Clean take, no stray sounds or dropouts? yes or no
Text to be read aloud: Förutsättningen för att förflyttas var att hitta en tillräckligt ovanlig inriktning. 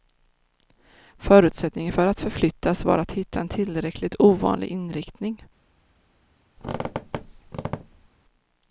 no